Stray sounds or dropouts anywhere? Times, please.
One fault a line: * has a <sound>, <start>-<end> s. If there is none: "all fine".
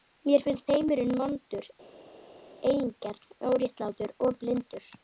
all fine